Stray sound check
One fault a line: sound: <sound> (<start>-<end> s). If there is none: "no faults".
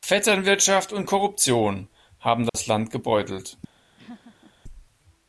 sound: dropout (2.5-2.5 s)
sound: laugh (4.0-4.5 s)